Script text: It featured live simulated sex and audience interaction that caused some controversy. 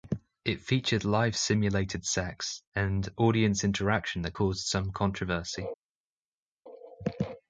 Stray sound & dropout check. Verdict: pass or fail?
pass